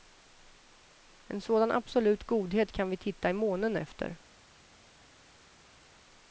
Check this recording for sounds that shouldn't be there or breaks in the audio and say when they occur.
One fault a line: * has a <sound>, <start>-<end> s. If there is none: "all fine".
all fine